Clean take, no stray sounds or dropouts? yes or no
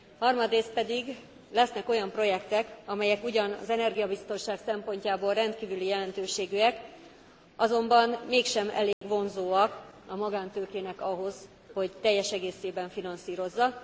no